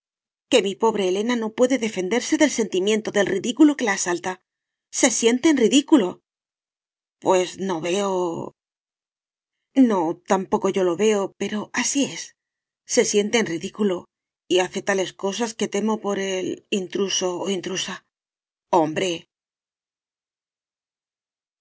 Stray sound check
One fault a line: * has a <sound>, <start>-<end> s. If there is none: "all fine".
all fine